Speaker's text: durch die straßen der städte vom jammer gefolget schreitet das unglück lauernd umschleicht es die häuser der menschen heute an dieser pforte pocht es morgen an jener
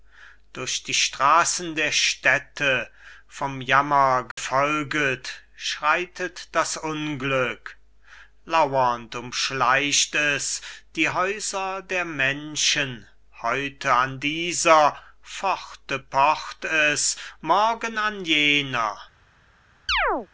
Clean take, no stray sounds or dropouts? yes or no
no